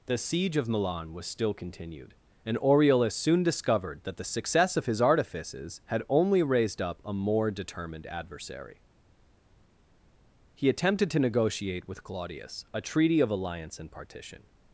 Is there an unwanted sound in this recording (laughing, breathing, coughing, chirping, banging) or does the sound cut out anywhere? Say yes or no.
no